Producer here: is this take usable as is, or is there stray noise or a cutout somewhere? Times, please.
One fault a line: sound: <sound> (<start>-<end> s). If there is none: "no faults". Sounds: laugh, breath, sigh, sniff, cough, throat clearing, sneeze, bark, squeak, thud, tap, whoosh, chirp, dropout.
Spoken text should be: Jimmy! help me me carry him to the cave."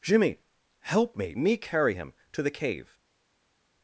no faults